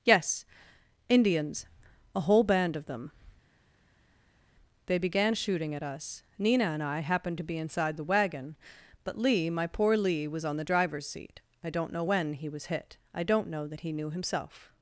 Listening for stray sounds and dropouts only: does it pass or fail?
pass